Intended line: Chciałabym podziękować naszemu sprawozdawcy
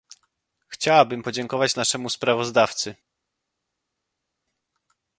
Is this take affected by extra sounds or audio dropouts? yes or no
no